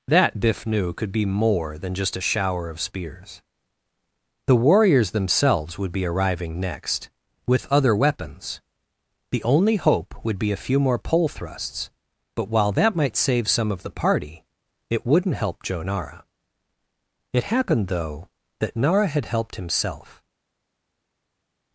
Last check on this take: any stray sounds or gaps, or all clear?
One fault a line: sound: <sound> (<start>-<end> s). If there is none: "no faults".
no faults